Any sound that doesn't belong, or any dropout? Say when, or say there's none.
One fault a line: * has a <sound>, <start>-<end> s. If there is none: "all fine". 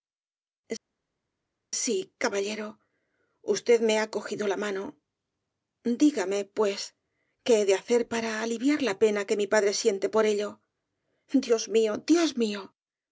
all fine